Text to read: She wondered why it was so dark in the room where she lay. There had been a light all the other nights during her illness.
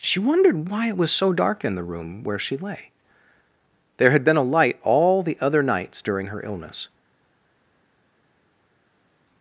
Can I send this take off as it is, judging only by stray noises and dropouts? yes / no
yes